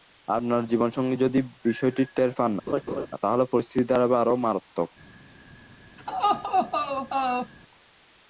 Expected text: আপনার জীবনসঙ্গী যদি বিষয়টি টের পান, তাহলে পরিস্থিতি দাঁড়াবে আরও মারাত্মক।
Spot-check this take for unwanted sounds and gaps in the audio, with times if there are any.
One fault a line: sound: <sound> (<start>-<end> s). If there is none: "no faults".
sound: laugh (2.7-3.1 s)
sound: laugh (6.0-7.5 s)